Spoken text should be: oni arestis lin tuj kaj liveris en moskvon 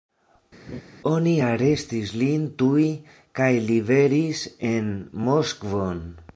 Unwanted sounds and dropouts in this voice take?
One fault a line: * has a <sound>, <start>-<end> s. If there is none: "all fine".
* has a laugh, 0.7-0.8 s